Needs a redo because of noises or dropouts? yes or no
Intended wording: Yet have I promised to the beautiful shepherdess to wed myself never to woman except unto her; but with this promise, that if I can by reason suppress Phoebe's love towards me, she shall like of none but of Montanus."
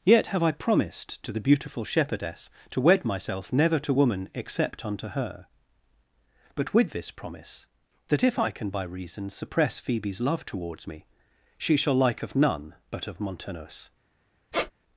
yes